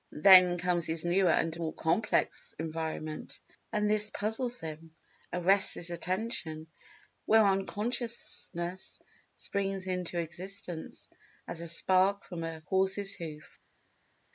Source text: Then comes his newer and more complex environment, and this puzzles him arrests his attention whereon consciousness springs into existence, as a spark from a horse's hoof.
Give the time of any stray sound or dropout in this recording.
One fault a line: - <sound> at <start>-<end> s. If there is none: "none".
none